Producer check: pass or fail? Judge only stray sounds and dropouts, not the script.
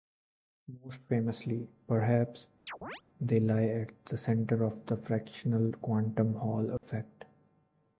fail